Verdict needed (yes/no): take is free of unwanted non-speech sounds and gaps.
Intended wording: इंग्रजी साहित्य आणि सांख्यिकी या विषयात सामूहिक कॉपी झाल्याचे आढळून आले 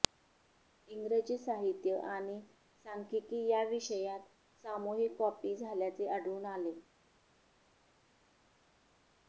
yes